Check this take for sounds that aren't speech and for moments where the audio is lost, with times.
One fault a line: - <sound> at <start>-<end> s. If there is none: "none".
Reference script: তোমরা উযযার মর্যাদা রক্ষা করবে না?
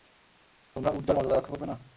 none